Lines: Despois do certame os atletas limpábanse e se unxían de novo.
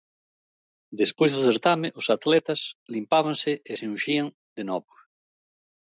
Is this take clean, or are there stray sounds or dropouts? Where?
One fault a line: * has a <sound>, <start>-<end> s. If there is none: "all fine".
all fine